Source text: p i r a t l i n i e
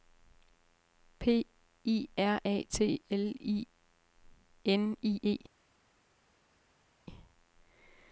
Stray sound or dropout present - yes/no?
no